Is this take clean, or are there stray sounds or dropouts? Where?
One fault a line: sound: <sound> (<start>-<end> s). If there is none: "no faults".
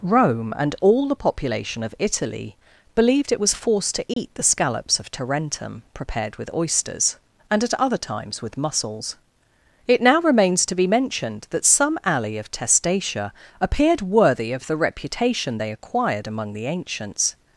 sound: dropout (4.1-4.2 s)